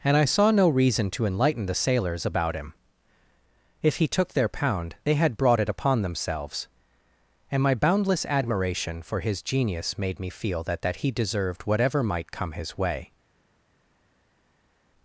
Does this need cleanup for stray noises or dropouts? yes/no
no